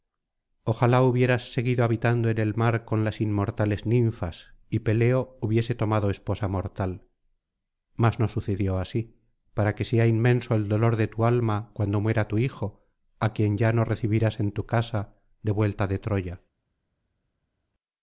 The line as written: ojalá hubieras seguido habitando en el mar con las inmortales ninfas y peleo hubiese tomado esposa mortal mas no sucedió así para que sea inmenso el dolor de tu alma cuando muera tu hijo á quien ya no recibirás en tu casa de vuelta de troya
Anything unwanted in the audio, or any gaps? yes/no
no